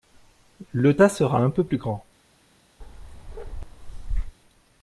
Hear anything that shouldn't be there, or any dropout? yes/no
yes